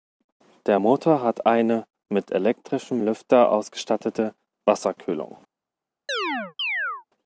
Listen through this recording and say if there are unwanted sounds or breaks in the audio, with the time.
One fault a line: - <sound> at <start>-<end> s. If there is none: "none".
- chirp at 6.1-7.0 s